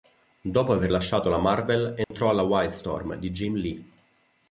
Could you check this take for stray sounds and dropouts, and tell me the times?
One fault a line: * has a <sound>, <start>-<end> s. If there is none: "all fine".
* has a dropout, 2.0-2.1 s